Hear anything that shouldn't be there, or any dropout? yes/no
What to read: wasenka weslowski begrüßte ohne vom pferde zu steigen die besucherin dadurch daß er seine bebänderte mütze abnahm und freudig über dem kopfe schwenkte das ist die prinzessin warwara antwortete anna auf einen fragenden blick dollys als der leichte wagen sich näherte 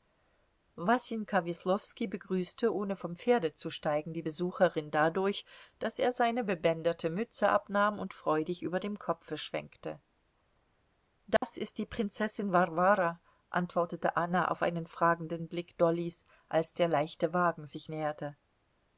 yes